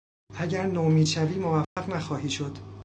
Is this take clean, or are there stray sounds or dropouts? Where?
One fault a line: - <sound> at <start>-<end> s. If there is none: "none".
- dropout at 1.6-1.8 s